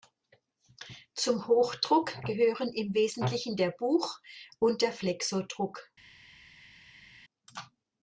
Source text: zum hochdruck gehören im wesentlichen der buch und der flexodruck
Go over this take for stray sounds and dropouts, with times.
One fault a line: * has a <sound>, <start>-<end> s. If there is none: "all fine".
all fine